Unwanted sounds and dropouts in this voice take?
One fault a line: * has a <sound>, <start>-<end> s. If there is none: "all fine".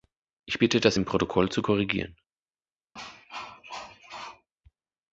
* has a cough, 3.0-4.5 s